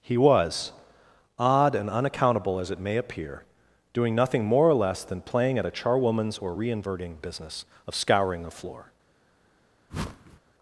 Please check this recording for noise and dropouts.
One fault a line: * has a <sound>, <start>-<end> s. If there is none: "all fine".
* has a whoosh, 9.9-10.4 s